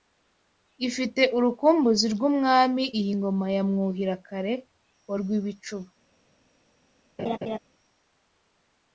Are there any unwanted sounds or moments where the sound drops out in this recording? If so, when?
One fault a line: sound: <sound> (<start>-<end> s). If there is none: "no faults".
sound: laugh (7.2-7.6 s)